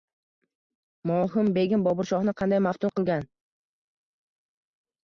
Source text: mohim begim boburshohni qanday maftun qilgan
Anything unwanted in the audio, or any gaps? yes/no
no